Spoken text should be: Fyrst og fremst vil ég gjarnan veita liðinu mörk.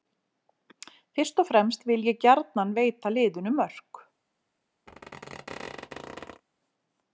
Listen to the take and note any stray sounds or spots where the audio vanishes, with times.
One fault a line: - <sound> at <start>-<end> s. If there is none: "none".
- squeak at 4.9-6.4 s